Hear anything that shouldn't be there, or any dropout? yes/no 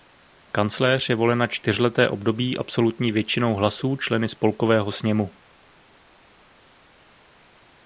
no